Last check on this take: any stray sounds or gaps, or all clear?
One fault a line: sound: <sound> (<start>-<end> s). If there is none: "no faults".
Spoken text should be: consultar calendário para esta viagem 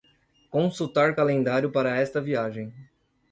no faults